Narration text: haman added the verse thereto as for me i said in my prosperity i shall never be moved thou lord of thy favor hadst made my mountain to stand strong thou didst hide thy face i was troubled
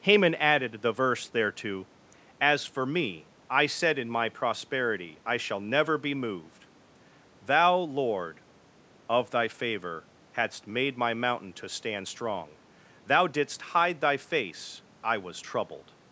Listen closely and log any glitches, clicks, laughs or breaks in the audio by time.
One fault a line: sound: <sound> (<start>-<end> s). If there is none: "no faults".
no faults